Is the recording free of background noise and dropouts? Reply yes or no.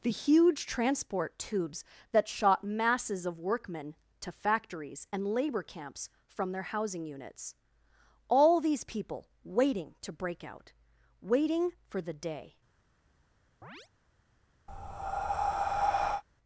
no